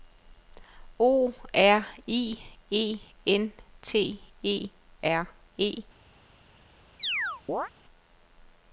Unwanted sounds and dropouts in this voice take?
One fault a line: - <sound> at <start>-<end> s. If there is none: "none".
- chirp at 7.0-7.7 s